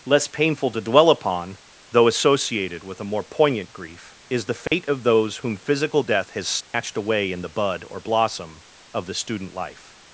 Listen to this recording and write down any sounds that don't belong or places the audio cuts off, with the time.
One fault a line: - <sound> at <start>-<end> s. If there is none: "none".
- dropout at 4.7-4.7 s
- dropout at 6.6-6.7 s